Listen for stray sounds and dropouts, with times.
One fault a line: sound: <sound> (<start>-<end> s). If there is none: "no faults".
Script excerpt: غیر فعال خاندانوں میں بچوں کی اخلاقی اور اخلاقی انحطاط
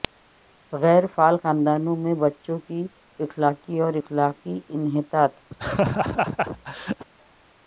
sound: laugh (5.5-7.0 s)